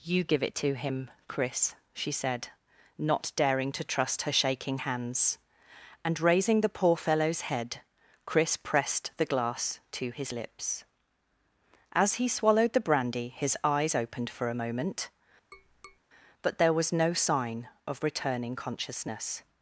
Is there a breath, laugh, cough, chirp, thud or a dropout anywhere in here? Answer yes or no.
yes